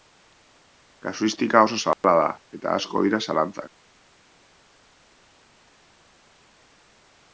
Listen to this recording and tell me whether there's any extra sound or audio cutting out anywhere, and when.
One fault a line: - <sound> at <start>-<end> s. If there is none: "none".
- dropout at 1.9-2.0 s